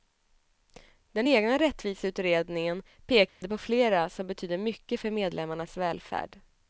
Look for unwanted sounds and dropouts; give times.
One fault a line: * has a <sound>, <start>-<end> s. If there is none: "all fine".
* has a dropout, 3.3-3.4 s